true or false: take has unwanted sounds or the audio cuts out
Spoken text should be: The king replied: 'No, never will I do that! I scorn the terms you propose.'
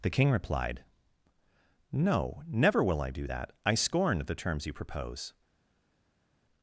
false